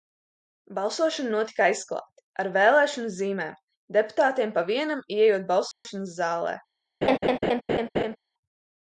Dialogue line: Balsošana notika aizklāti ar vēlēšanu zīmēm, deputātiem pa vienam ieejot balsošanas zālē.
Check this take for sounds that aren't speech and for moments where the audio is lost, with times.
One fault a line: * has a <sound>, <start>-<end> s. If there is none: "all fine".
* has a dropout, 5.7-5.8 s
* has a laugh, 7.0-8.2 s